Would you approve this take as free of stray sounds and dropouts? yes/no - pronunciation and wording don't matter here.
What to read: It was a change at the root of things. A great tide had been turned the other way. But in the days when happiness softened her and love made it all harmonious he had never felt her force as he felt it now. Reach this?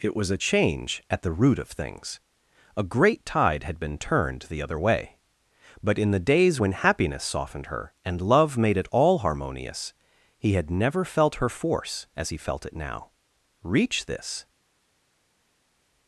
yes